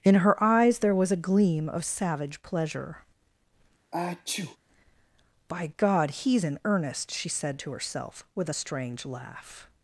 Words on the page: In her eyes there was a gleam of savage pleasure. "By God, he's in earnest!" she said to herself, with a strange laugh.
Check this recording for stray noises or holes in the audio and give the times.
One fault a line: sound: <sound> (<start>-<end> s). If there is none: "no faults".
sound: sneeze (3.9-4.6 s)